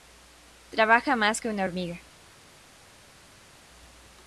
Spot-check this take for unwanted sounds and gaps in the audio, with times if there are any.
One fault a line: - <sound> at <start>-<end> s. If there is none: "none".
none